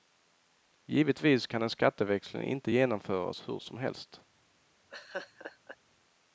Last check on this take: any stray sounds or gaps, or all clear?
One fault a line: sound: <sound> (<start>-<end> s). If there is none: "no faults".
sound: laugh (4.9-5.8 s)